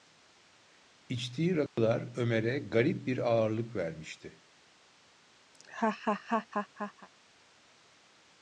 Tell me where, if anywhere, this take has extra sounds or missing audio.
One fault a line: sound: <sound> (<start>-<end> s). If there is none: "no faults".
sound: dropout (1.7-1.8 s)
sound: laugh (5.5-7.1 s)